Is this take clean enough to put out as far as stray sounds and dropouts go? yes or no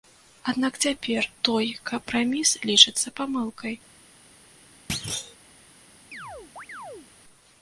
no